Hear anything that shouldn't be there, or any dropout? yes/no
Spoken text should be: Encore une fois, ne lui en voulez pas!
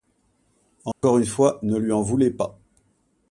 yes